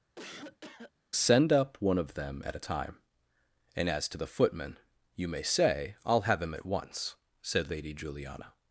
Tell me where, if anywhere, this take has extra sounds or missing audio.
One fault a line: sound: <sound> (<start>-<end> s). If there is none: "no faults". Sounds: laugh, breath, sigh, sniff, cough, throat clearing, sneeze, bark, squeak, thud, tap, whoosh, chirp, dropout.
sound: cough (0.2-0.9 s)